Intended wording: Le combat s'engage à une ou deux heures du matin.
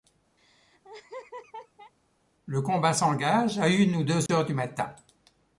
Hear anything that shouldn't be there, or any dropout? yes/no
yes